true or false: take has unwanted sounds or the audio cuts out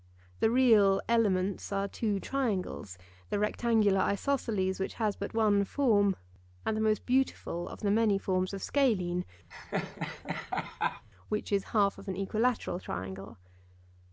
true